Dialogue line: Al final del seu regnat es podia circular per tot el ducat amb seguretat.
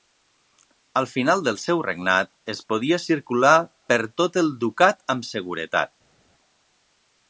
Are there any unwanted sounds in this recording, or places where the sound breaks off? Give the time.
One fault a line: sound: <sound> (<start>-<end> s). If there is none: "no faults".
no faults